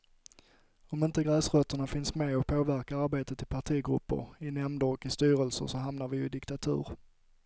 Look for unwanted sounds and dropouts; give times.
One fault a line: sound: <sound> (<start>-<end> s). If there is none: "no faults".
no faults